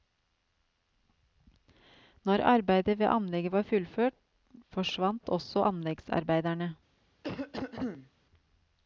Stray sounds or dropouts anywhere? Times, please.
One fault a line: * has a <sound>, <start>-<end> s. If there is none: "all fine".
* has a cough, 7.2-8.1 s